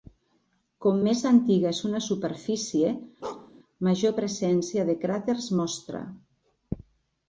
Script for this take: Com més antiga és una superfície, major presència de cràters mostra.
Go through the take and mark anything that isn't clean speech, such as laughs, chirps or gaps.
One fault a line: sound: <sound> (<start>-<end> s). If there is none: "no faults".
sound: bark (3.2-3.5 s)